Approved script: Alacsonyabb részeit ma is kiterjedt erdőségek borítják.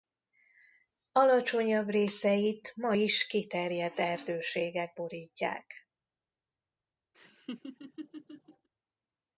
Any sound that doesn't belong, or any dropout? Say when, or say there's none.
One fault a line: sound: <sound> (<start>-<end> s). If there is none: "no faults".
sound: laugh (7.1-8.7 s)